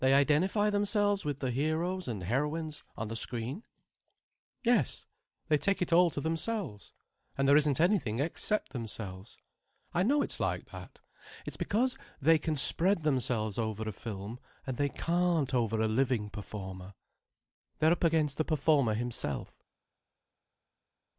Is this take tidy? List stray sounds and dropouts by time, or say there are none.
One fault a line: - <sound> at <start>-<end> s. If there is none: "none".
none